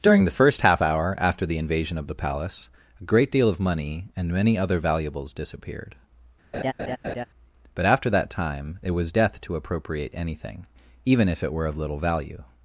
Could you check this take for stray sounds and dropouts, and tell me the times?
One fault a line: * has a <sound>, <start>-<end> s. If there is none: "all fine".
* has a laugh, 6.5-7.2 s